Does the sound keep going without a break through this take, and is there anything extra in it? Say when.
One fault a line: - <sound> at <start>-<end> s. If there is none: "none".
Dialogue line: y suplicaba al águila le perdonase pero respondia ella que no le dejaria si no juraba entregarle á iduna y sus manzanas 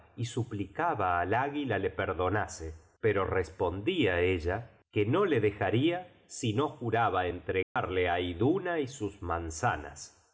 - dropout at 7.6-7.8 s